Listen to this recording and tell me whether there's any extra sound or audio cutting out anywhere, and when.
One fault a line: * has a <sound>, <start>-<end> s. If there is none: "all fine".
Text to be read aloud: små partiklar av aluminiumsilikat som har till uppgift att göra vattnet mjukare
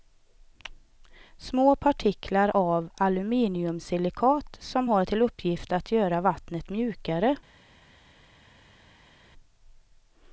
all fine